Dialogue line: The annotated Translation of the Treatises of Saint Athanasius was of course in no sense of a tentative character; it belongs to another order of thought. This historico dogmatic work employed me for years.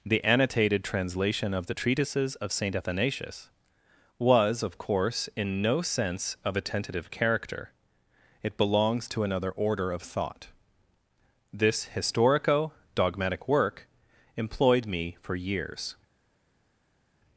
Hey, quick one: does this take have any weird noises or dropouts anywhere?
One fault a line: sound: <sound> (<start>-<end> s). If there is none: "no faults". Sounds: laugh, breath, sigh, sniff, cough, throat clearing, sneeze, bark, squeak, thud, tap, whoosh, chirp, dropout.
no faults